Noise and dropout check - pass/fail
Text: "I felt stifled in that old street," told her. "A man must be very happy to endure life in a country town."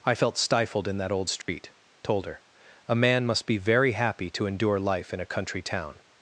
fail